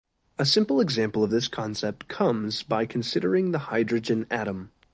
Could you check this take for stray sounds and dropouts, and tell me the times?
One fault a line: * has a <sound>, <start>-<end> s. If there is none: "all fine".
all fine